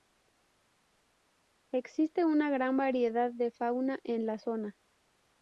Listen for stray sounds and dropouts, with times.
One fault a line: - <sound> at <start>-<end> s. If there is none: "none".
none